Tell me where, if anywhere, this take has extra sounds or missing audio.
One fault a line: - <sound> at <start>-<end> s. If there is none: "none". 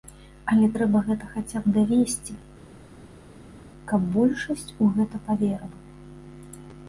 none